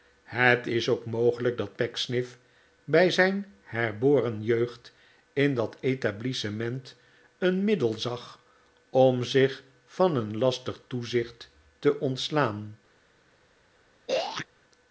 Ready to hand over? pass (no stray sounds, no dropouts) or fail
fail